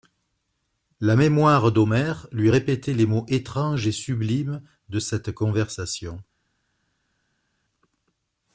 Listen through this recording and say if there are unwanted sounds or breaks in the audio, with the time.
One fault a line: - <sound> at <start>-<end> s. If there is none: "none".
none